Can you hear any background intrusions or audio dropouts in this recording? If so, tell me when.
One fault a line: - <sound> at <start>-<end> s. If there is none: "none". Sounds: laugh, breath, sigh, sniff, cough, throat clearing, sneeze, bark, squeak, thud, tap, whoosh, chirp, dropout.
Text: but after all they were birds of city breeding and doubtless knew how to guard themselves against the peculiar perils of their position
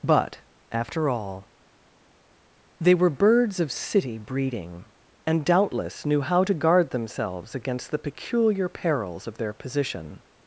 none